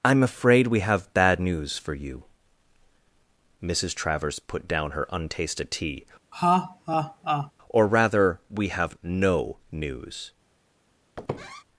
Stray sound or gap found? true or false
true